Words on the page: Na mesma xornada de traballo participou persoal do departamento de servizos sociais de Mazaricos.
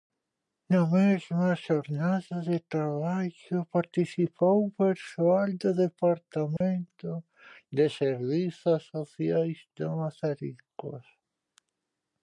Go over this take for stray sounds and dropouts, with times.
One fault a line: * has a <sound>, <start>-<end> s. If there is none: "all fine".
* has a dropout, 6.6-6.6 s